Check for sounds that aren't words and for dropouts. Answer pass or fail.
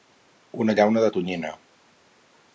pass